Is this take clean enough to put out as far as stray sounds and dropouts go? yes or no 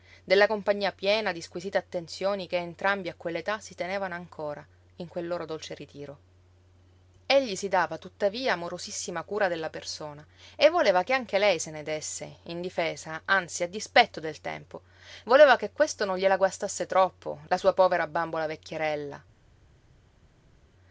yes